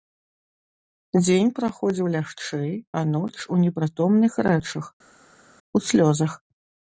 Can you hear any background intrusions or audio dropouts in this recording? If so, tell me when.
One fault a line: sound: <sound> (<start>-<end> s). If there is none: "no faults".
no faults